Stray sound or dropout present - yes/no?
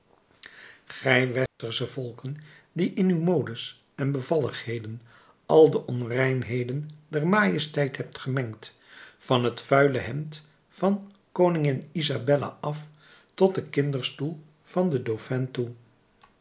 yes